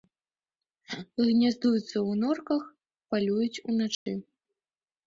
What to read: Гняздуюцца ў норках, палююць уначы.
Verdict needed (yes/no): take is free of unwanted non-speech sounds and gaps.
no